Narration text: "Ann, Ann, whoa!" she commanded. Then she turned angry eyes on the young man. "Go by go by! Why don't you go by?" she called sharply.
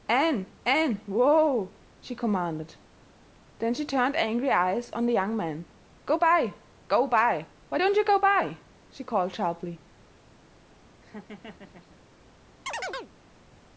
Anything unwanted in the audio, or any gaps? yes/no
yes